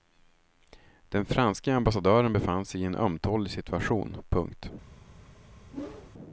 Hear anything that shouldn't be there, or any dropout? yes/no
yes